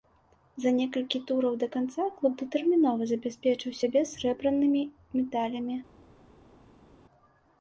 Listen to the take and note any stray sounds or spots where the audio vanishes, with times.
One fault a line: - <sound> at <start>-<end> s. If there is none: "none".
none